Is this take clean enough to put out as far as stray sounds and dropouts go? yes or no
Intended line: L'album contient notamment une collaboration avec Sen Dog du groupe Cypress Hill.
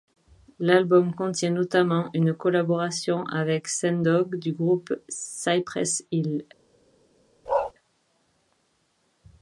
no